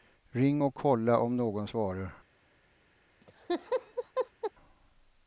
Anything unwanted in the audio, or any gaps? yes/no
yes